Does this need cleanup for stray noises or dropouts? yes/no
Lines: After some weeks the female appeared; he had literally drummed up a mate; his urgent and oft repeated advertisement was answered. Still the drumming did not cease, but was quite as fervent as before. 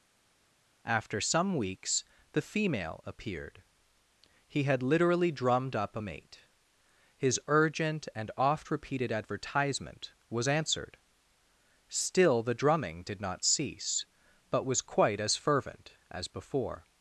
no